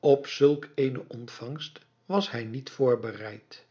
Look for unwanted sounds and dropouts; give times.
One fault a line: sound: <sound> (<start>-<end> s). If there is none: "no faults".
no faults